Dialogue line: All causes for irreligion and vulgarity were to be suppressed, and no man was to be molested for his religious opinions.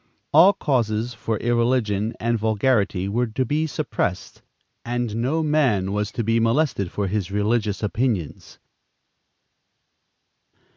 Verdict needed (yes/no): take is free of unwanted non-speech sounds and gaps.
yes